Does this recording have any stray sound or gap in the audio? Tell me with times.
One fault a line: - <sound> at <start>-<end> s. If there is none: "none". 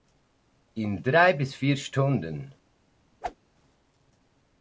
- whoosh at 3.2-3.4 s